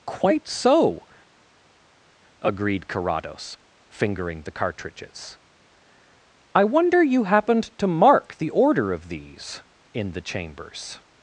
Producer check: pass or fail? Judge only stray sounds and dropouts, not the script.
pass